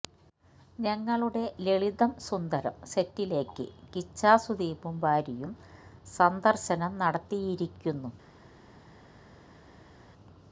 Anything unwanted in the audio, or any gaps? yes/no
no